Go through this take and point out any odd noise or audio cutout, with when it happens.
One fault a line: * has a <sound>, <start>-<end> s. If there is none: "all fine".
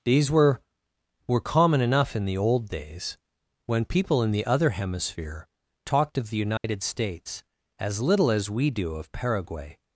* has a dropout, 6.6-6.6 s